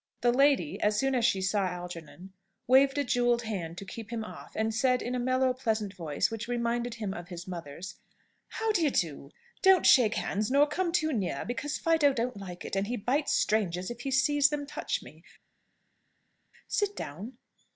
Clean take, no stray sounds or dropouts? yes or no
yes